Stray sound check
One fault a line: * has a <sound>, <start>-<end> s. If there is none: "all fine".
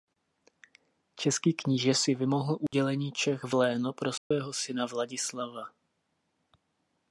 * has a dropout, 2.7-2.7 s
* has a dropout, 4.2-4.3 s